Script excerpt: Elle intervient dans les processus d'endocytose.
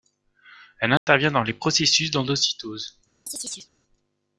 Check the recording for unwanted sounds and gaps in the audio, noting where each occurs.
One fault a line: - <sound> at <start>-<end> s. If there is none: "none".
- dropout at 1.0-1.1 s
- chirp at 3.3-3.7 s